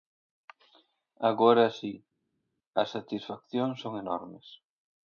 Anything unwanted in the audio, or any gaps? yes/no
no